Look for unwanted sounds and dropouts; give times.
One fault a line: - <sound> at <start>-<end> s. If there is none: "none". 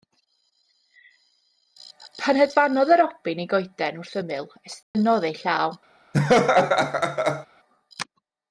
- dropout at 4.8-4.9 s
- laugh at 6.1-7.5 s